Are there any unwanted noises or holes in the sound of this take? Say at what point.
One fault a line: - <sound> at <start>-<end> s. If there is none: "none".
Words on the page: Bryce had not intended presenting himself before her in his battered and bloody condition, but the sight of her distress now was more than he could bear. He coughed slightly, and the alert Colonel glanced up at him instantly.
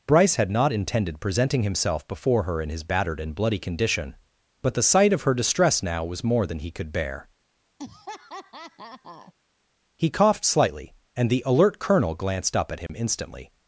- laugh at 7.8-9.3 s
- dropout at 12.9-12.9 s